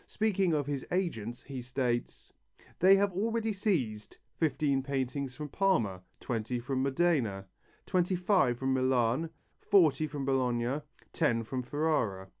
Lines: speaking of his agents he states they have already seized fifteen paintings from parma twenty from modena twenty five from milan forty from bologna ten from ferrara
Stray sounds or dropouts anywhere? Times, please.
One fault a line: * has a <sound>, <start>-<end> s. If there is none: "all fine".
all fine